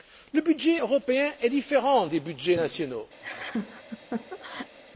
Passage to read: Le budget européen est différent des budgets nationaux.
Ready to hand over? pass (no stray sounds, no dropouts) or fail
fail